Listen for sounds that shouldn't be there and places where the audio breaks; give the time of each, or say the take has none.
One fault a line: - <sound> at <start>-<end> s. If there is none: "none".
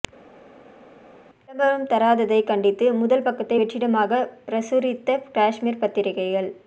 none